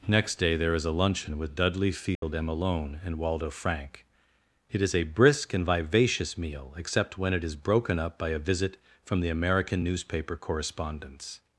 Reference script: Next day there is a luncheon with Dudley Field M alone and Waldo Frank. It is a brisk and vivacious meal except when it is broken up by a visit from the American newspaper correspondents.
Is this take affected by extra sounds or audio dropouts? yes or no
yes